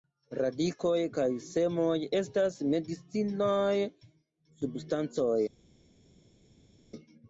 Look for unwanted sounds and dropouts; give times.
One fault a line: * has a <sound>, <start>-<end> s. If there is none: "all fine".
all fine